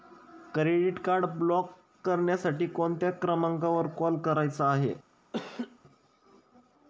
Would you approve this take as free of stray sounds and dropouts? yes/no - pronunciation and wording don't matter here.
no